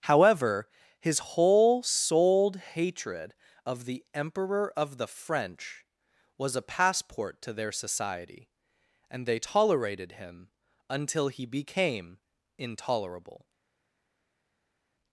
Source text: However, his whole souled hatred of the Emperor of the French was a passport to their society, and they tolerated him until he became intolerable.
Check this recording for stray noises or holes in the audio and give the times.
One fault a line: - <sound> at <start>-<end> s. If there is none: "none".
none